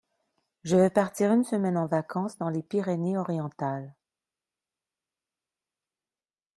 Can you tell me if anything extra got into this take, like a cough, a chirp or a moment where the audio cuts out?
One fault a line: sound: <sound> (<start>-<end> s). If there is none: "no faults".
no faults